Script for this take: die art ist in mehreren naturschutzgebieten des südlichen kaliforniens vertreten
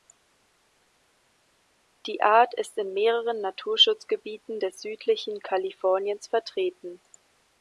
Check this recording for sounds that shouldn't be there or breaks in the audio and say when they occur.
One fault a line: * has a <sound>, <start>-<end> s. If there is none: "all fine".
all fine